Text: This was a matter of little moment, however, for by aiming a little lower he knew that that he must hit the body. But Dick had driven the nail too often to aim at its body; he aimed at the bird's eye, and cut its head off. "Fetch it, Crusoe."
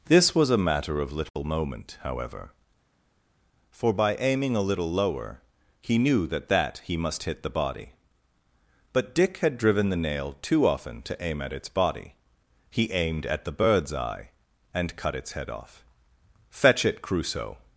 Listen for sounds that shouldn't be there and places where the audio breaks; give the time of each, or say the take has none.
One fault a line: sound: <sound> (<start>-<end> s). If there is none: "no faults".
no faults